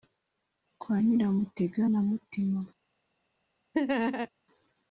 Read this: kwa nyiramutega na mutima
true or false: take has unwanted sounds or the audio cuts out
true